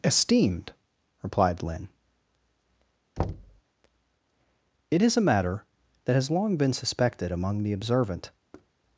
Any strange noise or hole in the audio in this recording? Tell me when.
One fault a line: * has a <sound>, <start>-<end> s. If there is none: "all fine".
* has a thud, 3.2-3.6 s
* has a thud, 8.5-8.7 s